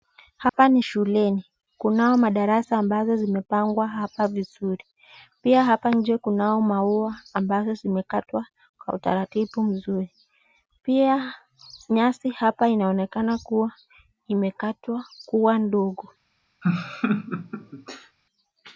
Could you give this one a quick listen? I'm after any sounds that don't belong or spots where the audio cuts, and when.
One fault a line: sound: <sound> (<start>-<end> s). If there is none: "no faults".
sound: dropout (0.5-0.5 s)
sound: laugh (16.6-18.2 s)